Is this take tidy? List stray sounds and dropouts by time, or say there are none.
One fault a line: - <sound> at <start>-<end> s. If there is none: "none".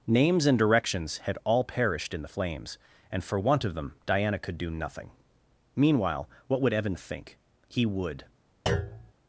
- thud at 8.7-9.1 s